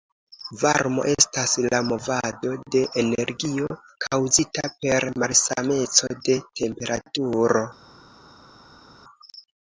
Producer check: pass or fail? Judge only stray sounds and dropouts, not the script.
pass